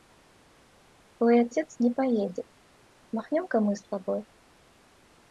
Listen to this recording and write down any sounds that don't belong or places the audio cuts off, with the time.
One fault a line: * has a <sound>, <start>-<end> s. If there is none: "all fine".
all fine